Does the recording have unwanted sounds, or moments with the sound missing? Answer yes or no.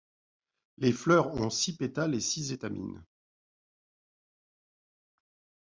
no